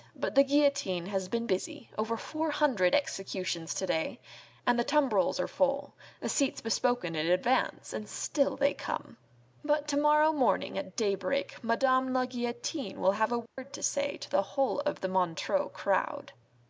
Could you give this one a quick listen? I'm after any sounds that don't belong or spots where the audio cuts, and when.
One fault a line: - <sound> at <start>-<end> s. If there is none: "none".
- dropout at 13.5-13.6 s